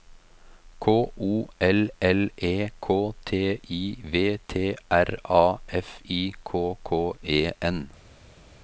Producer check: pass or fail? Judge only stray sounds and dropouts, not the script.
pass